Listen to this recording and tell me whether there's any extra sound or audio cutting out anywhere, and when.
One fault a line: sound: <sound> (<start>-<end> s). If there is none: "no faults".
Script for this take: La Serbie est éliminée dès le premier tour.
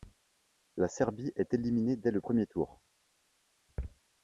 no faults